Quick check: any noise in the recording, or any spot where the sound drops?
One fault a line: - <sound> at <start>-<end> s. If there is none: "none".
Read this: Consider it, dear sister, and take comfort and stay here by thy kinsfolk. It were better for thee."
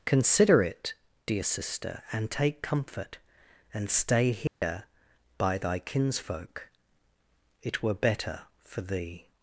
- dropout at 4.5-4.6 s